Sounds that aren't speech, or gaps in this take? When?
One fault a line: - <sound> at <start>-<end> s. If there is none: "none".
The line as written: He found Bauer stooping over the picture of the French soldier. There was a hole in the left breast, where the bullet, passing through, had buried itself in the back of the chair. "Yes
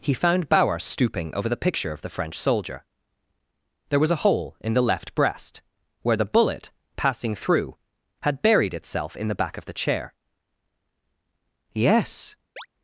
- chirp at 12.6-12.7 s